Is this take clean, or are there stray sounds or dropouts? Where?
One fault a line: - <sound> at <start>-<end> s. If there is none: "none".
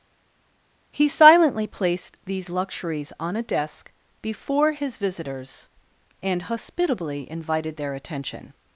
none